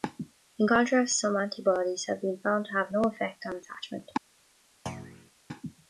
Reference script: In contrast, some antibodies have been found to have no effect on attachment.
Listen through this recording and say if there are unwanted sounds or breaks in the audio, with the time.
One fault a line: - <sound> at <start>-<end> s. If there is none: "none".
- thud at 4.9-5.3 s